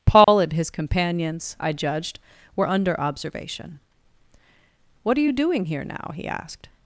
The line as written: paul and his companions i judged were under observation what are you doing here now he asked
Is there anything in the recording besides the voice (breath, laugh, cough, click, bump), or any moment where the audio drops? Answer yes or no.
yes